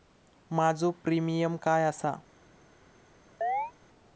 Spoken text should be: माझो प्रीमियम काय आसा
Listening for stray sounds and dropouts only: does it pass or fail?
fail